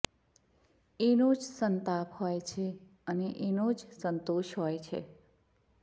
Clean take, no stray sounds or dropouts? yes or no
yes